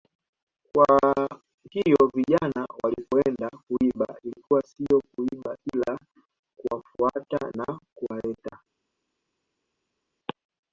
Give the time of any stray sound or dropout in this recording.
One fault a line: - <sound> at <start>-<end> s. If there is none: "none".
none